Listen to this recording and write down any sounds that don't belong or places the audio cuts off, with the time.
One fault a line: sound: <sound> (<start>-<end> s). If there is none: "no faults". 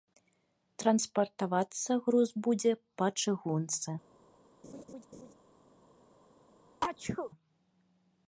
sound: laugh (4.6-5.3 s)
sound: sneeze (6.8-7.3 s)